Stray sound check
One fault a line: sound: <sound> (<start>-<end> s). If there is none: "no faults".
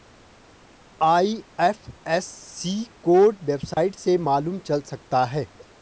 sound: dropout (3.7-3.8 s)